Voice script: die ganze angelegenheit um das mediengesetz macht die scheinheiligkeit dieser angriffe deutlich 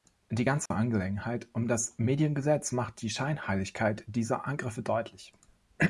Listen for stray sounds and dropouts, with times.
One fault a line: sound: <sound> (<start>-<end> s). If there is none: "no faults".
sound: dropout (0.7-0.7 s)